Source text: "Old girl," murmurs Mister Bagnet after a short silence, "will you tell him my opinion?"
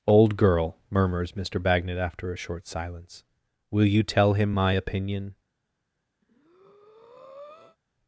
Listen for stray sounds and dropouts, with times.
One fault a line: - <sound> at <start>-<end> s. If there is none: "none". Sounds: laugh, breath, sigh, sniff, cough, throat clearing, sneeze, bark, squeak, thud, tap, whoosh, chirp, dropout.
- breath at 6.2-7.8 s